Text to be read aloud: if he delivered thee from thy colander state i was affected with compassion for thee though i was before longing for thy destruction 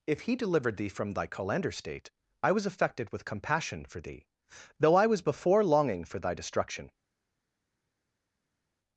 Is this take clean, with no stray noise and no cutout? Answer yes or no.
yes